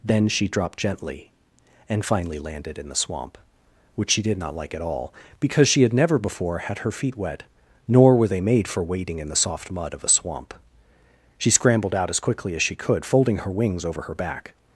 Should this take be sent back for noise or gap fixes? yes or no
no